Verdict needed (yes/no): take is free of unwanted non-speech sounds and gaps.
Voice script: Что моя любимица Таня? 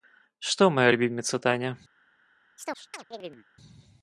no